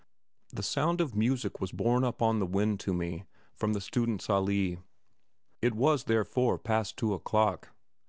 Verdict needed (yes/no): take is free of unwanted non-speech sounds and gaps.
yes